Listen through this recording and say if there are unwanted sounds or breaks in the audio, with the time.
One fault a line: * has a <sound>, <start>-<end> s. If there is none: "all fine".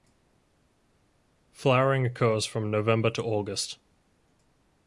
all fine